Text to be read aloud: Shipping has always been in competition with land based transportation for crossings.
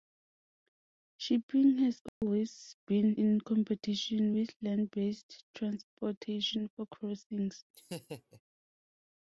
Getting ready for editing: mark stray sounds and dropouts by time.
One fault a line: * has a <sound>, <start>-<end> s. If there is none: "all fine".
* has a dropout, 2.1-2.2 s
* has a laugh, 7.7-8.4 s